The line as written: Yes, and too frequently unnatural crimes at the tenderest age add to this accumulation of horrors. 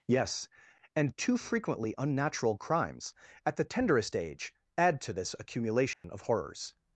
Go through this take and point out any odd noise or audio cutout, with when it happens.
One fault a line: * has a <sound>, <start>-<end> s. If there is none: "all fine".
* has a dropout, 5.9-6.0 s